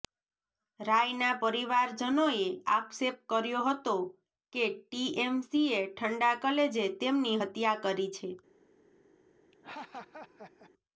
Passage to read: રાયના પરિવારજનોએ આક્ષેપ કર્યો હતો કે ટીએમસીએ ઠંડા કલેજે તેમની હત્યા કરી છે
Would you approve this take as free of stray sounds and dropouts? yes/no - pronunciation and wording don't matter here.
no